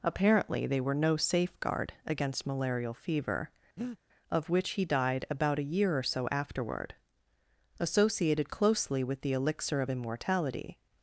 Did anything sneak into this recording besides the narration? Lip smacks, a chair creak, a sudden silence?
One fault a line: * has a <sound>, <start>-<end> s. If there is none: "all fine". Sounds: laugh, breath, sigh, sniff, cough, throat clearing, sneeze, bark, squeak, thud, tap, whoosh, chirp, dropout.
* has a breath, 3.8-4.0 s